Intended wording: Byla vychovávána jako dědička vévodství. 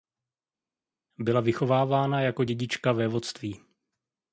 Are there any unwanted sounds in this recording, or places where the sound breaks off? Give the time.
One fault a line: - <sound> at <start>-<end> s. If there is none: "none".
none